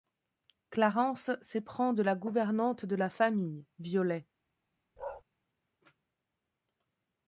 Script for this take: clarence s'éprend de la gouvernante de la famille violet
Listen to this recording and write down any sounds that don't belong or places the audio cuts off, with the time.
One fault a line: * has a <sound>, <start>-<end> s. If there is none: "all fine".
* has a bark, 5.0-5.2 s